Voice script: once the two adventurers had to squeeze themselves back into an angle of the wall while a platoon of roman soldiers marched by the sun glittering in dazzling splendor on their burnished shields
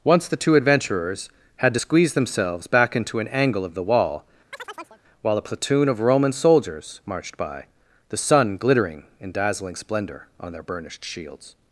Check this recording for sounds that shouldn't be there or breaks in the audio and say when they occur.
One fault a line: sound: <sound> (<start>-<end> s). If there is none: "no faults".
sound: chirp (4.5-5.0 s)